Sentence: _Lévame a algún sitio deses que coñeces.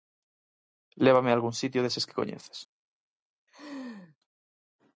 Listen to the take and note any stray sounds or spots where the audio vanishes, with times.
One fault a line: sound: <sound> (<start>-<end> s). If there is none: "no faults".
sound: laugh (3.5-4.2 s)